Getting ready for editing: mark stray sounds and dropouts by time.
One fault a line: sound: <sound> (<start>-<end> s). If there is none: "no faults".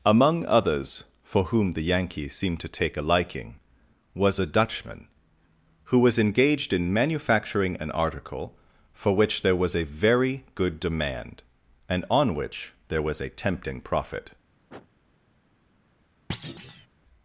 sound: sniff (14.7-14.9 s)
sound: thud (16.3-16.9 s)